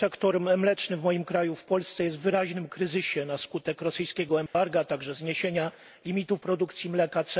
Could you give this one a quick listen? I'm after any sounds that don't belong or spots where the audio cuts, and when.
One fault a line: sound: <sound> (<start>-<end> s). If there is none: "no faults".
sound: dropout (4.5-4.5 s)